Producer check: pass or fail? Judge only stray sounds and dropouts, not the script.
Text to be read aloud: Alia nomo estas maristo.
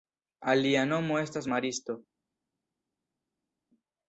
pass